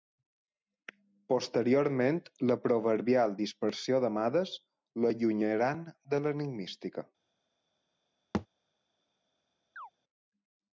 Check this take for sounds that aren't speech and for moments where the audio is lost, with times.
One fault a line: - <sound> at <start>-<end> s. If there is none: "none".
- thud at 8.3-8.5 s
- chirp at 9.8-9.9 s